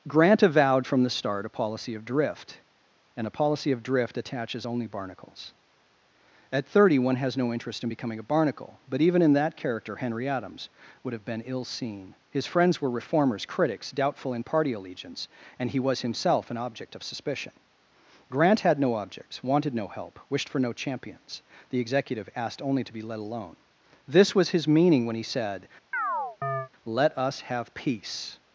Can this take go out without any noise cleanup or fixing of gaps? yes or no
no